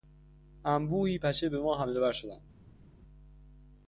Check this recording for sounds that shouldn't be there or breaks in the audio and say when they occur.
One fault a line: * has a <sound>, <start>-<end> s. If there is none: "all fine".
all fine